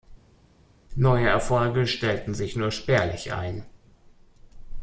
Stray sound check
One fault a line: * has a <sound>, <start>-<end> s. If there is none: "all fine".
all fine